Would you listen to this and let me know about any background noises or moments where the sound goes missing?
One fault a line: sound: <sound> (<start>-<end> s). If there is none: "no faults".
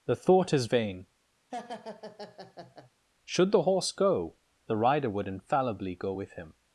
sound: laugh (1.5-2.9 s)